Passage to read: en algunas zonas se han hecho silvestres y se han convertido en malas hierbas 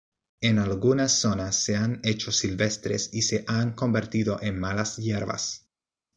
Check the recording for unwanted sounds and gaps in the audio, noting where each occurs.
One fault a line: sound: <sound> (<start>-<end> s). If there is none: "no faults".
no faults